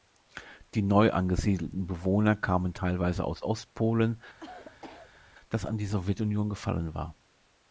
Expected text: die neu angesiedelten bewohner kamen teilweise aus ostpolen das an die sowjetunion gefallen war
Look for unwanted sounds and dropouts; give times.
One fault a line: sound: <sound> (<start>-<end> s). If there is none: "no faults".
sound: cough (4.4-5.2 s)